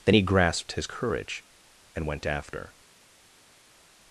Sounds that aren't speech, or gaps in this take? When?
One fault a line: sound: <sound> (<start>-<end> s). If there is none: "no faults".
no faults